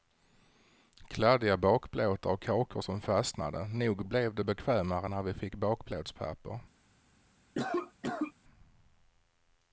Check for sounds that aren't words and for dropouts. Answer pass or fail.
fail